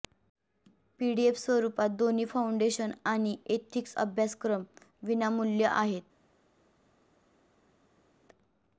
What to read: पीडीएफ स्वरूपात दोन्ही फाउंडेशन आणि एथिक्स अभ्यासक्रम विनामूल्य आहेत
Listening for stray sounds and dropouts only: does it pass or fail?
pass